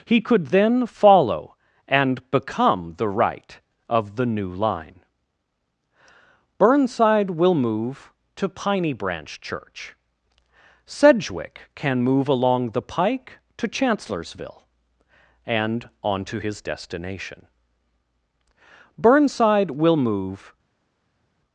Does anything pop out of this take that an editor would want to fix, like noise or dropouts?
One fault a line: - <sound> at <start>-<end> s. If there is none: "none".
none